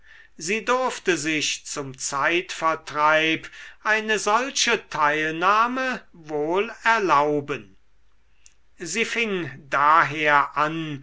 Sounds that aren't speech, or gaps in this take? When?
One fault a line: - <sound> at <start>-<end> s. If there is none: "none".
none